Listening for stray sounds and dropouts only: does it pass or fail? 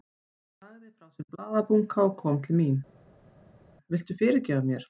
pass